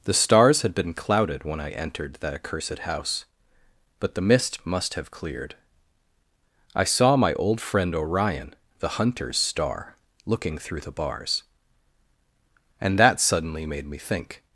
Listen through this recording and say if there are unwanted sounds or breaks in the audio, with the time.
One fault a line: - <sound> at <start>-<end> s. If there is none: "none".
none